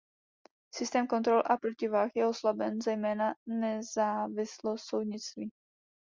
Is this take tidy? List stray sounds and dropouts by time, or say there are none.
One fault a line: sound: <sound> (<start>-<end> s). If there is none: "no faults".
no faults